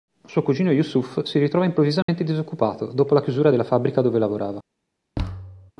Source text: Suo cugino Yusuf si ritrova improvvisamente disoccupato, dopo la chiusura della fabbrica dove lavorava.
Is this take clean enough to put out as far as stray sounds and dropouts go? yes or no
no